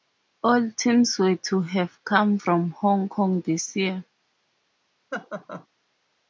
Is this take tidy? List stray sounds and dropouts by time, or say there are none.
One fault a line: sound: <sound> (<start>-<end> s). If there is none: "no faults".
sound: laugh (5.1-5.7 s)